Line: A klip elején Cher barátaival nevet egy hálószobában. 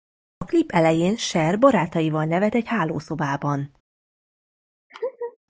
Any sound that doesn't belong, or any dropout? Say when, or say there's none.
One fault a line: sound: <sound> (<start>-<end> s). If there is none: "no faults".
sound: laugh (4.9-5.4 s)